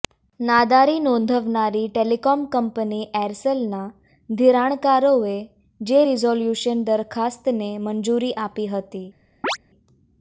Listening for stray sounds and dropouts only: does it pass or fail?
fail